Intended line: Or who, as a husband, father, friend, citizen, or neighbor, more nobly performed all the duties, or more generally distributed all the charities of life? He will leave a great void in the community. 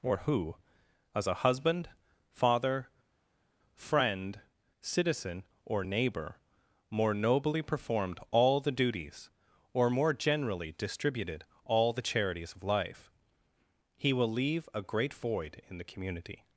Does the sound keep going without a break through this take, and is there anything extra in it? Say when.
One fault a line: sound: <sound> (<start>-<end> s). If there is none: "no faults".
no faults